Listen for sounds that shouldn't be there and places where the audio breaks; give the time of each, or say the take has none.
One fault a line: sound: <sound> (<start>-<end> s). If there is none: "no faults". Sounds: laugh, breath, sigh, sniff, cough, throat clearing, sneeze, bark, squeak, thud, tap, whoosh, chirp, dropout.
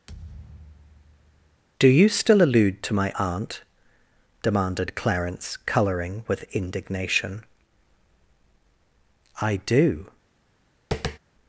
sound: thud (0.1-1.6 s)
sound: tap (10.9-11.2 s)